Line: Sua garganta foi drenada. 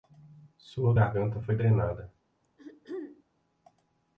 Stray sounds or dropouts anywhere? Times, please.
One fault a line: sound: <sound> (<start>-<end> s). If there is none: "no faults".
sound: throat clearing (2.4-3.2 s)